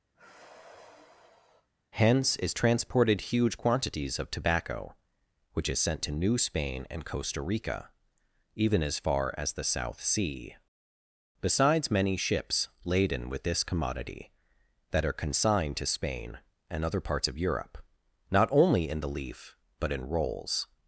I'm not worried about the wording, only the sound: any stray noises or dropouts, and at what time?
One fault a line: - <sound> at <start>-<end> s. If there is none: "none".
- sigh at 0.1-1.7 s